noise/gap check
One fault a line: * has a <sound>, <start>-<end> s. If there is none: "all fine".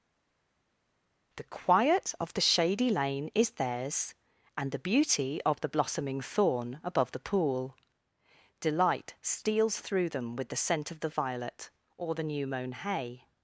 all fine